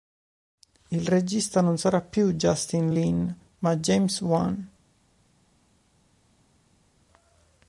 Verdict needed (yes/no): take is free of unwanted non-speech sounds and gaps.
yes